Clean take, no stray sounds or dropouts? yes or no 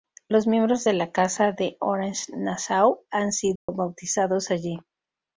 no